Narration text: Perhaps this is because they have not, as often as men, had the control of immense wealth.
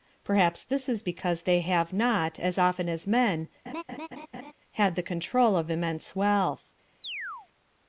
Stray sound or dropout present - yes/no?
yes